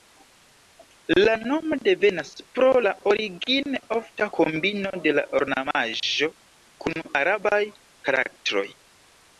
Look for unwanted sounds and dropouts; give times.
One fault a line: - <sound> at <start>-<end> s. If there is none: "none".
none